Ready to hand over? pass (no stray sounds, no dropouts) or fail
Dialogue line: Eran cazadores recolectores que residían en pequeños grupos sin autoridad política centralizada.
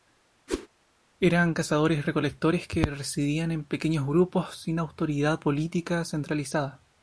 fail